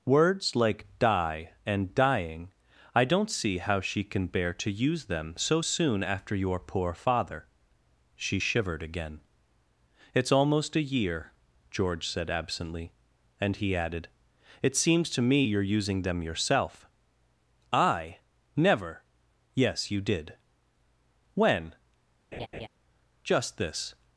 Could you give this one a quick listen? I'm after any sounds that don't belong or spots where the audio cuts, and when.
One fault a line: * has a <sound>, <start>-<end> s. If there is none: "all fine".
* has a laugh, 22.3-22.7 s